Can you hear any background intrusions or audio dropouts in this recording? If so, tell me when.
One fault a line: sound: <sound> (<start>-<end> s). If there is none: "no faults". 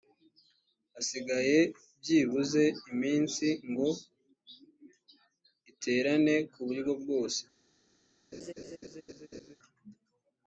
sound: laugh (8.3-9.6 s)